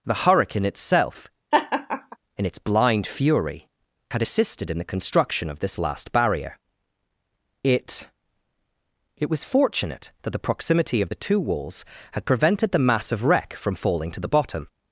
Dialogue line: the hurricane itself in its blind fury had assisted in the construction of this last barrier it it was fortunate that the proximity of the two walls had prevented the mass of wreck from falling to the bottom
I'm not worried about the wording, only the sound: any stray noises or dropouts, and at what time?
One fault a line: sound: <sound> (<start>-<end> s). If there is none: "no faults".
sound: laugh (1.5-2.2 s)